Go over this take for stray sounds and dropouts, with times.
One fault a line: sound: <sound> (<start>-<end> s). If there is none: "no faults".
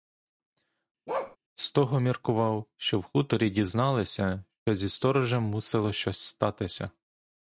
sound: bark (1.1-1.4 s)